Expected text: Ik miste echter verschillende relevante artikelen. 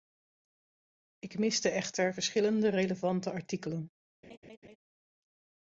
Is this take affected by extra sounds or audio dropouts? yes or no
yes